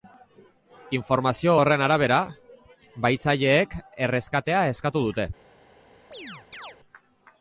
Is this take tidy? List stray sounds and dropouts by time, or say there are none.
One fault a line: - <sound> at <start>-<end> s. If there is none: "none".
- chirp at 6.1-6.8 s